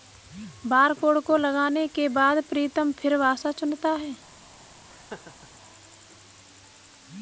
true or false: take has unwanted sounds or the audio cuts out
true